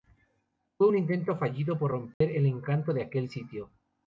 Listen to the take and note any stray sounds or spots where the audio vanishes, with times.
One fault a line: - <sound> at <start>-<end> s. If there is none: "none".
- dropout at 2.1-2.2 s